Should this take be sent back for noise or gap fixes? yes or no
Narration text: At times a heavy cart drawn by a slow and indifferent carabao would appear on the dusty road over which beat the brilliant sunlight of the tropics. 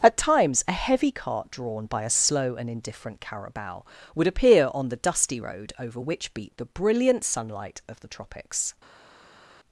no